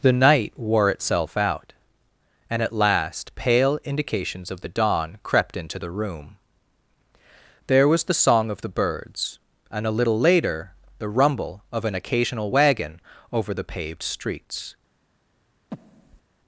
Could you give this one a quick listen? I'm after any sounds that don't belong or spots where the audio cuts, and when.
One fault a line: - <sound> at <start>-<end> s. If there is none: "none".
- breath at 15.7-16.2 s